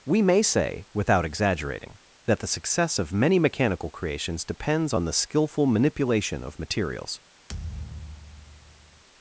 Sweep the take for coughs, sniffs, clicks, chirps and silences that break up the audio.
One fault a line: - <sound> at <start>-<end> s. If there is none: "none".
- thud at 7.5-9.0 s